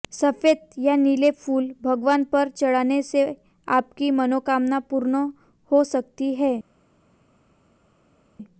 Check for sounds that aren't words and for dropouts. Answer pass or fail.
pass